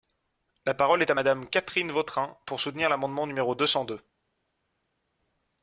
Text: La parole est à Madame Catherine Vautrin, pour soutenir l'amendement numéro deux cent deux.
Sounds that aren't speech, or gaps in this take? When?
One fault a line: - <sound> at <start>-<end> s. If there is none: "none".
none